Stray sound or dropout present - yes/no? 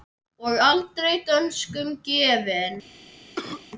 yes